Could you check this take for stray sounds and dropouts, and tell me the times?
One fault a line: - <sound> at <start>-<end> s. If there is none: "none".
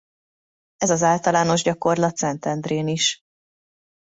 none